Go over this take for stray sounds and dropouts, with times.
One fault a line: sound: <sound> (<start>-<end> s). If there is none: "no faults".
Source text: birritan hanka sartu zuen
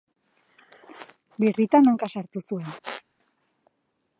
sound: squeak (2.8-3.0 s)